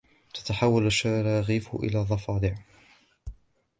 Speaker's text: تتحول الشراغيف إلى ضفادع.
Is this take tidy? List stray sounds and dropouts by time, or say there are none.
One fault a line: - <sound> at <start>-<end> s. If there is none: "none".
none